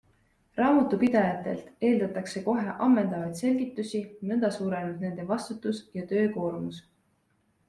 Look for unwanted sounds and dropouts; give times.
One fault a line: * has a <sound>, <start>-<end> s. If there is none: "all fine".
all fine